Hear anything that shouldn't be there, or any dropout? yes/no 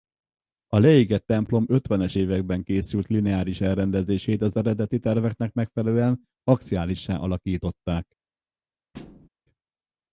yes